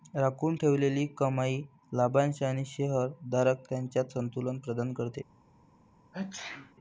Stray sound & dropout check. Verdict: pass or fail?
fail